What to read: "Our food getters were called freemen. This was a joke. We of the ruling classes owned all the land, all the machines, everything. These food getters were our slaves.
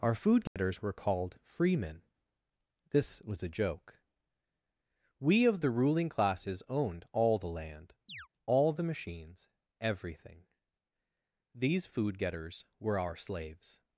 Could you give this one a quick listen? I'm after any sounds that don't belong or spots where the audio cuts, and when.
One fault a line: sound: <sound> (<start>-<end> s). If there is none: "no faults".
sound: dropout (0.5-0.6 s)
sound: chirp (8.1-8.3 s)